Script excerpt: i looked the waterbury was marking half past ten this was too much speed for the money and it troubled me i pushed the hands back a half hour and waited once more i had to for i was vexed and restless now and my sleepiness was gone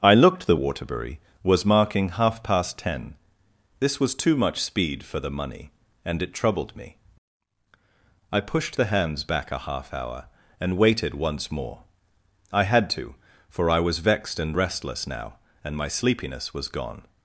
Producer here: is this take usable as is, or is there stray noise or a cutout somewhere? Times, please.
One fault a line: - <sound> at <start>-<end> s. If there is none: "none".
none